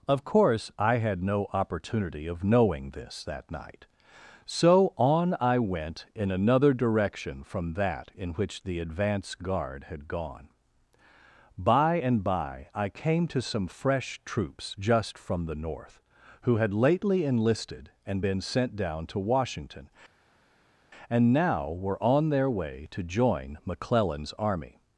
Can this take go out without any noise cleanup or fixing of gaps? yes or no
yes